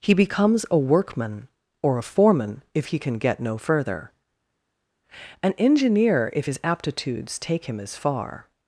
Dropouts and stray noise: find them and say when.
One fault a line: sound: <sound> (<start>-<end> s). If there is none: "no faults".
no faults